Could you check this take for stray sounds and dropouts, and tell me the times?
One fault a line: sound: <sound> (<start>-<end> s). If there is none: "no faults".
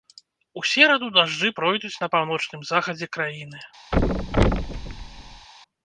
sound: thud (3.9-5.5 s)